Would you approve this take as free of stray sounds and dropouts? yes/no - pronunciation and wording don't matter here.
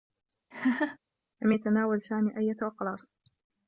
no